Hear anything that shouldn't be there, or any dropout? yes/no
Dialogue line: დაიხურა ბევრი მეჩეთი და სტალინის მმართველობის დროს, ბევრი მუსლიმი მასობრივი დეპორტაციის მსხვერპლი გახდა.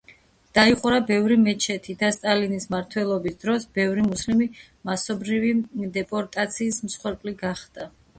no